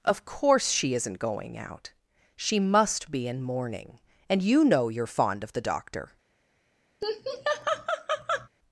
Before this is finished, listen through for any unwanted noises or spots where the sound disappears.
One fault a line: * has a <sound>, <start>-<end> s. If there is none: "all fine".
* has a laugh, 7.0-8.5 s